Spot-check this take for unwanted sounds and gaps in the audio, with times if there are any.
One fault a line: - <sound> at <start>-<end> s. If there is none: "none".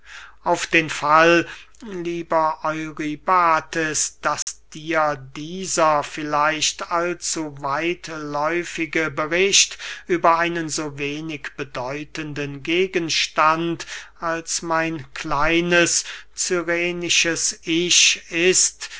- dropout at 4.4-4.5 s